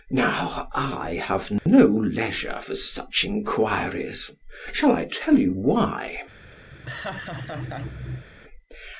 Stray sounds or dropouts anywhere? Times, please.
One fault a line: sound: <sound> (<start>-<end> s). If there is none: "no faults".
sound: dropout (1.6-1.7 s)
sound: laugh (6.7-8.3 s)